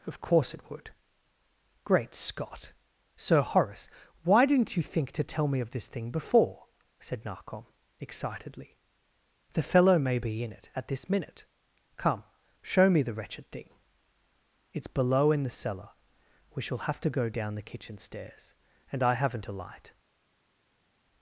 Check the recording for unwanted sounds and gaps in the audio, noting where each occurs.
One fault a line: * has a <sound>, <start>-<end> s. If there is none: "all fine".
all fine